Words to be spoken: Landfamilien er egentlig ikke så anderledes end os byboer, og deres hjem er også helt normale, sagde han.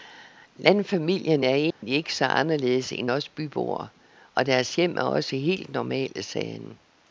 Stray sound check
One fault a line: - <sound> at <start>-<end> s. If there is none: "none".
- dropout at 1.7-1.8 s